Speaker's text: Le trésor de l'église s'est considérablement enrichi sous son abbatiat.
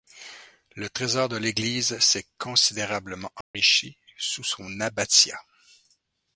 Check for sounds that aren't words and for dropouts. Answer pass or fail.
fail